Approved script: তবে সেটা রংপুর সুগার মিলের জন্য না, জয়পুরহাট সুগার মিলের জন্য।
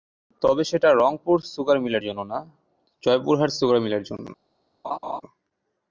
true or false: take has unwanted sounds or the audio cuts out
true